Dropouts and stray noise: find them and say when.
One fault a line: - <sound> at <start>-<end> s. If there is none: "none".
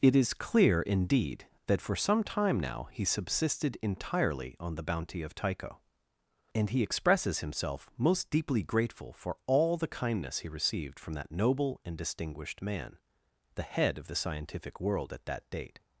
none